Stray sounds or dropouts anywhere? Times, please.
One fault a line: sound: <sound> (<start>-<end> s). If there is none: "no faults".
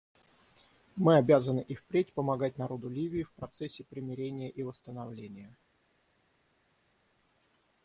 no faults